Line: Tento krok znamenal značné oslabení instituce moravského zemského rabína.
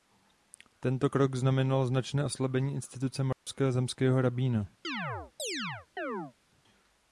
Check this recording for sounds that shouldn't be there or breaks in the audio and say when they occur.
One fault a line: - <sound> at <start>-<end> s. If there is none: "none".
- dropout at 3.3-3.5 s
- chirp at 4.8-6.3 s